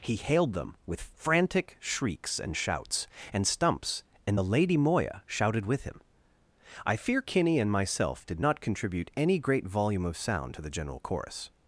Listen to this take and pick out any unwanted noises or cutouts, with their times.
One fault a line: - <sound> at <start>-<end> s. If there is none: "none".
none